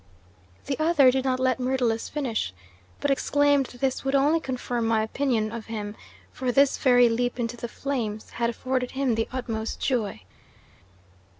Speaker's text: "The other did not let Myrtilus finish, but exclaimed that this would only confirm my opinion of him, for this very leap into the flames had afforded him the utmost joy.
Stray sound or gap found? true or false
false